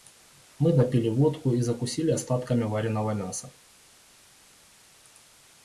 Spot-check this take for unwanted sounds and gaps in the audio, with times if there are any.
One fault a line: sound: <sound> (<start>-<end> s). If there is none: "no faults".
no faults